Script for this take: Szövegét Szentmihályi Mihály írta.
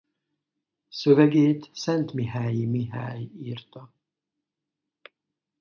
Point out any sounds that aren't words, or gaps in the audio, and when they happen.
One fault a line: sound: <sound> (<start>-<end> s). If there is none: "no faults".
no faults